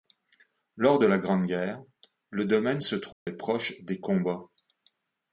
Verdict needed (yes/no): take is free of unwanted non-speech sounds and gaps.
no